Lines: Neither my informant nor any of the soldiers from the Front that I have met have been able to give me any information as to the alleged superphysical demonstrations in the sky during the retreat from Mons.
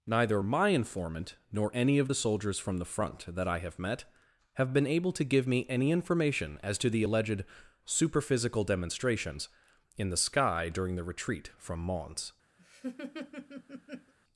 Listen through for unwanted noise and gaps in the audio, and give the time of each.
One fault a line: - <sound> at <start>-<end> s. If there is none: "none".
- laugh at 12.6-14.1 s